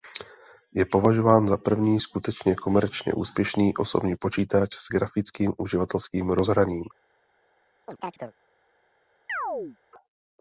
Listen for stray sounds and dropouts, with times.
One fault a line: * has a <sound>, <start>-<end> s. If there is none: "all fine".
* has a chirp, 7.9-8.3 s
* has a chirp, 9.3-9.8 s